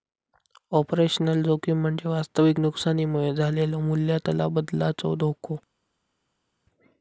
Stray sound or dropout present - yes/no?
no